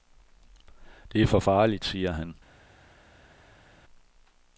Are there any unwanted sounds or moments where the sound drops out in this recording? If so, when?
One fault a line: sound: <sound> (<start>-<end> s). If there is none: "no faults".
no faults